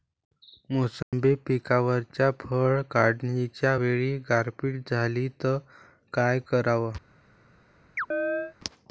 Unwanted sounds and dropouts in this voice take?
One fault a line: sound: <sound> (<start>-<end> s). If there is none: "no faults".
sound: dropout (1.0-1.1 s)
sound: chirp (8.0-8.5 s)